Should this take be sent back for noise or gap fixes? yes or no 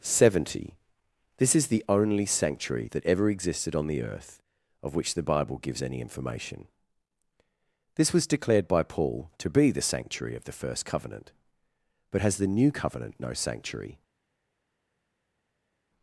no